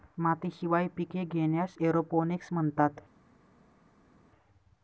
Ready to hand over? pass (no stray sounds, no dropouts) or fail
pass